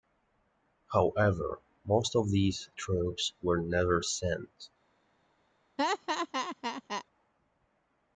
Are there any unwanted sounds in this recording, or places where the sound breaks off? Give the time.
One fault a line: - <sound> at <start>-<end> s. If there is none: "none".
- laugh at 5.8-7.0 s